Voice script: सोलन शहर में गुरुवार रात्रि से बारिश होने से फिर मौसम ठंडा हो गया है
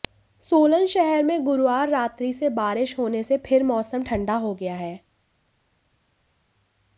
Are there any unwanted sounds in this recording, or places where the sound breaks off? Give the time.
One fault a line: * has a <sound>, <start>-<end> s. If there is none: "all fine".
all fine